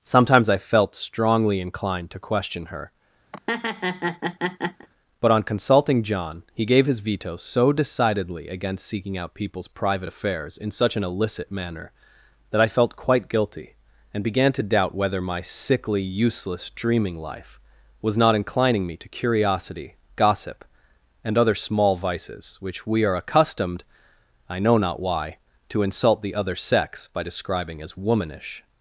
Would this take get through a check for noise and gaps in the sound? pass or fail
fail